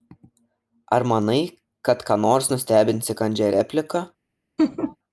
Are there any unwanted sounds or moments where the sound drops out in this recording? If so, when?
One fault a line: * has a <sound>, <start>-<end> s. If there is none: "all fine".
* has a laugh, 4.6-5.0 s